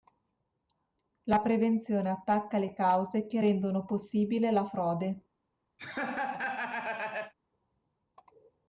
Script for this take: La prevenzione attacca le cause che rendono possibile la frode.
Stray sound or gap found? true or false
true